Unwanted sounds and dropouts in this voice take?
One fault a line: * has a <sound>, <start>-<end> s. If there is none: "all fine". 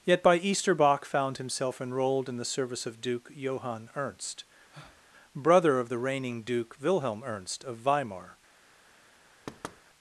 * has a breath, 4.7-5.0 s
* has a thud, 9.5-9.8 s